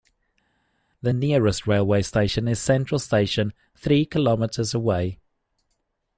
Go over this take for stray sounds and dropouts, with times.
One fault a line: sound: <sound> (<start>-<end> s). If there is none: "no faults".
no faults